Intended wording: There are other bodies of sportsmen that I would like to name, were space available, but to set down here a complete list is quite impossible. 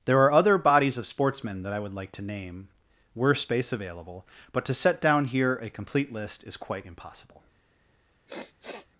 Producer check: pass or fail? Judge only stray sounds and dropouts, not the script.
fail